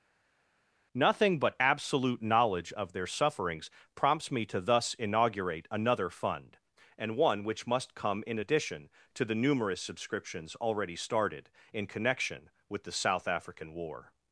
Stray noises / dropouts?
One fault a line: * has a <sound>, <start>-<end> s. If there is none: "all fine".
all fine